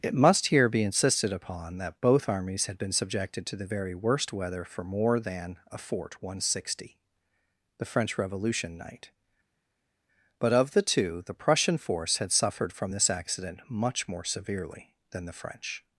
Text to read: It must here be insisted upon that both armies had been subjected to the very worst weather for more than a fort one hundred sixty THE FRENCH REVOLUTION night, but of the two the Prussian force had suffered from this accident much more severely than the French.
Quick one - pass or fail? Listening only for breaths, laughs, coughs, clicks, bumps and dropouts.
pass